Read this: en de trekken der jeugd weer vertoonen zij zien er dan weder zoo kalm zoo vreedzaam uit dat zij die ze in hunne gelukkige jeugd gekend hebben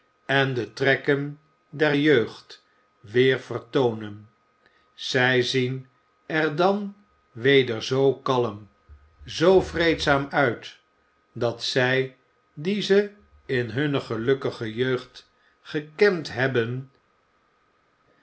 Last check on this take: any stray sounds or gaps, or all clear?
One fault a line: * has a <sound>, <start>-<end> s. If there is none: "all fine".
all fine